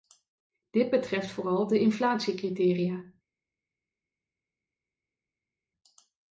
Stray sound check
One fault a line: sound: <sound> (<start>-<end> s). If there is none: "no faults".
no faults